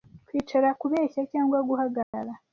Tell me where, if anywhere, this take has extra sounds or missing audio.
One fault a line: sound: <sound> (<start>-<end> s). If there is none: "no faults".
sound: dropout (2.0-2.1 s)